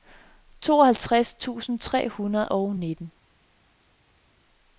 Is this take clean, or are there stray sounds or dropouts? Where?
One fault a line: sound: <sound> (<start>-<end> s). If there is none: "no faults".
no faults